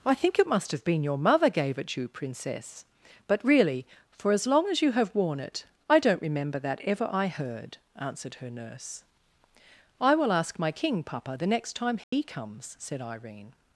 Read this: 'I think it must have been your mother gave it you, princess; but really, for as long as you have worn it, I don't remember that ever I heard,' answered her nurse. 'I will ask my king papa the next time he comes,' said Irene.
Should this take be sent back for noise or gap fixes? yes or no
yes